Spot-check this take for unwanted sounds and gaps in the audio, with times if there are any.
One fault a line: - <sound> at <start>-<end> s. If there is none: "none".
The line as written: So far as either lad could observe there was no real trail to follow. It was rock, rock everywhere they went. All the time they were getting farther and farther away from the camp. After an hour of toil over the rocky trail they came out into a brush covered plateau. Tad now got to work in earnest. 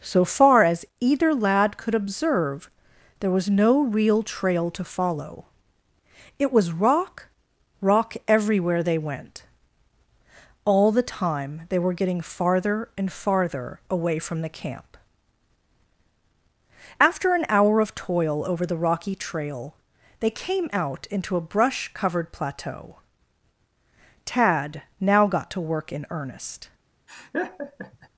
- laugh at 27.1-28.1 s